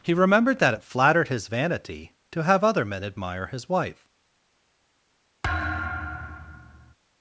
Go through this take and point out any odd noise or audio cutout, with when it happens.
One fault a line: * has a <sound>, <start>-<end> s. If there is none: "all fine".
* has a thud, 5.4-6.9 s